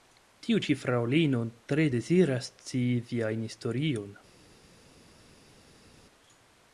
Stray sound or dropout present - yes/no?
no